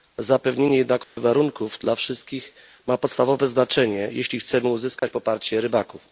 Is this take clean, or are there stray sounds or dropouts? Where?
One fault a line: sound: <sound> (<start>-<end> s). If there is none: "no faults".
sound: dropout (1.0-1.2 s)
sound: dropout (5.0-5.0 s)